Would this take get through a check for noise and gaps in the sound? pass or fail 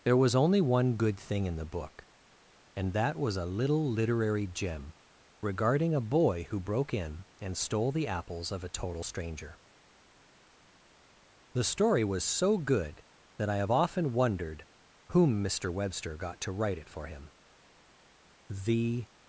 pass